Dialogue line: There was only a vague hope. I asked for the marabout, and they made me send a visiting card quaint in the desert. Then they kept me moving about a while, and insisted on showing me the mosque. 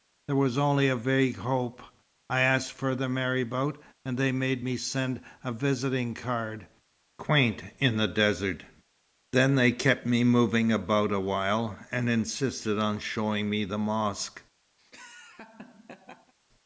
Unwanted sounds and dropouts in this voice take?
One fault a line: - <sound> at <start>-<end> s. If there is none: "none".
- laugh at 14.8-16.3 s